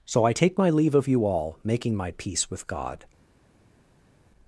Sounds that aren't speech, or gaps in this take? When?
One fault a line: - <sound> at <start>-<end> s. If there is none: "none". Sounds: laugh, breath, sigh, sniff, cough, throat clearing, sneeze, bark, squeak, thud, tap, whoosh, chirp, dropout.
none